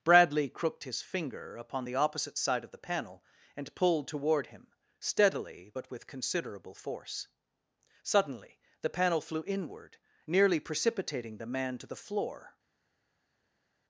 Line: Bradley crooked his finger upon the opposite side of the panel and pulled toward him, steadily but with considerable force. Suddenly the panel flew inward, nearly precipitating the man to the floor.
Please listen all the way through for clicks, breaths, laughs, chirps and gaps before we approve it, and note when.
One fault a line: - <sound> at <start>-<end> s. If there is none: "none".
none